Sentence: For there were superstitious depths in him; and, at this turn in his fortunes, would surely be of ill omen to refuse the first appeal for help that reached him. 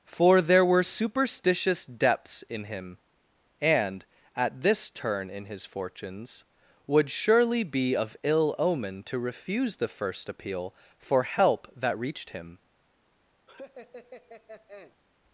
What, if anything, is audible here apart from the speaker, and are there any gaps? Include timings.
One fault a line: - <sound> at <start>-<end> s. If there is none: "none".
- laugh at 13.5-15.0 s